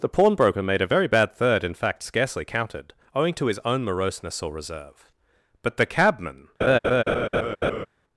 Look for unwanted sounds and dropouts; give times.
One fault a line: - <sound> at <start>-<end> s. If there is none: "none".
- laugh at 6.6-7.9 s